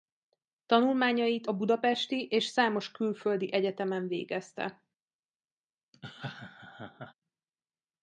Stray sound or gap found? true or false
true